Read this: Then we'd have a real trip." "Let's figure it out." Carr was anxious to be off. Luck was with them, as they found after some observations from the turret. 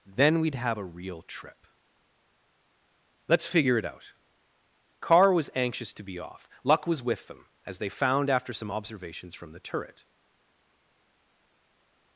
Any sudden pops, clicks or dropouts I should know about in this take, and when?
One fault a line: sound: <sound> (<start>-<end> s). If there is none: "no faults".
no faults